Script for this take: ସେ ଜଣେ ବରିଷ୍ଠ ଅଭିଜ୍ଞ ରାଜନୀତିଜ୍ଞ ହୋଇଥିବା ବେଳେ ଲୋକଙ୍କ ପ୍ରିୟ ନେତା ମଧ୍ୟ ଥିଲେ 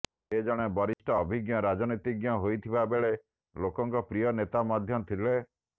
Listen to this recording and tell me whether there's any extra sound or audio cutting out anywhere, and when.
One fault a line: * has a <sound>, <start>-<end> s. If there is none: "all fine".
* has a dropout, 0.9-1.0 s